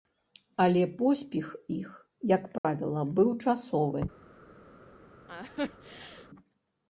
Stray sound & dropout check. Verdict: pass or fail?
fail